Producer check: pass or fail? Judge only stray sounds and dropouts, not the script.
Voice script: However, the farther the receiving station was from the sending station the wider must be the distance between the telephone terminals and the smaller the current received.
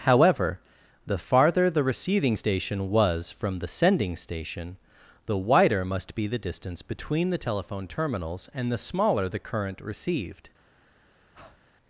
fail